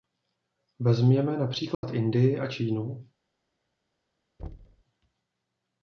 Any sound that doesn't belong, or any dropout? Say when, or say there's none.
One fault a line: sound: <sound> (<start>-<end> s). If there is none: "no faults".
sound: dropout (1.7-1.8 s)
sound: thud (4.4-4.8 s)